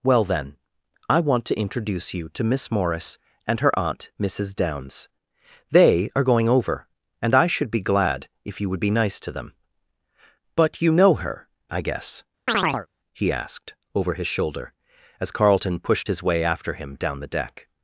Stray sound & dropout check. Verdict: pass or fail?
fail